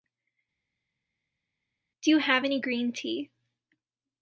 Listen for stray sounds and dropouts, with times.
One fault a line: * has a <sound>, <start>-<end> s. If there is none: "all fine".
all fine